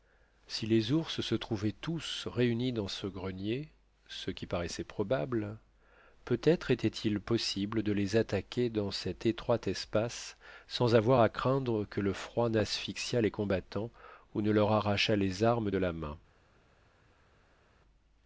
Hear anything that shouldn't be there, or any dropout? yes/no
no